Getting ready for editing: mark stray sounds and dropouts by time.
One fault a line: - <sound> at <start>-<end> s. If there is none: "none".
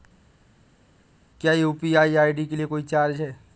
none